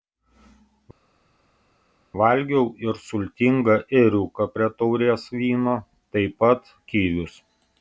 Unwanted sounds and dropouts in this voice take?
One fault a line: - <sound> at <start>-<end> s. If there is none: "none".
none